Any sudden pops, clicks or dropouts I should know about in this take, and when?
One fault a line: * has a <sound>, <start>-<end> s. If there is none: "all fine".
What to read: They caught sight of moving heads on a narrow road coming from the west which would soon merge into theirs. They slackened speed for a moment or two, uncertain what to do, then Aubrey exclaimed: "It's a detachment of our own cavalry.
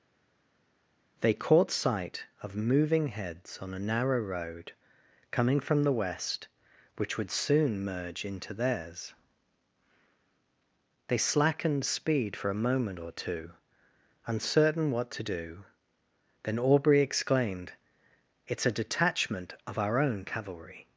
all fine